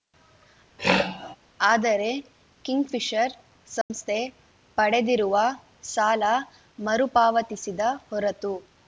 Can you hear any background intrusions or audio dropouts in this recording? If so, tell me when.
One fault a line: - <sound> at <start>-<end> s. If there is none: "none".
- throat clearing at 0.8-1.4 s
- dropout at 3.8-3.9 s